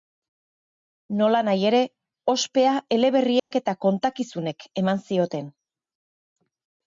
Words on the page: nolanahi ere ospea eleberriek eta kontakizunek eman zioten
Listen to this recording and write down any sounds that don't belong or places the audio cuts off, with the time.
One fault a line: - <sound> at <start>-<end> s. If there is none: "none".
- dropout at 3.4-3.5 s